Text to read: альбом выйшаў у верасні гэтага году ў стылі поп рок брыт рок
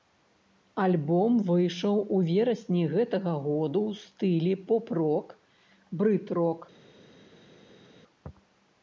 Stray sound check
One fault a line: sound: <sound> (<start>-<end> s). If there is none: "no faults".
no faults